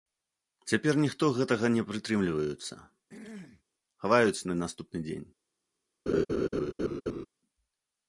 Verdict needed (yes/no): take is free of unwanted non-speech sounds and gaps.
no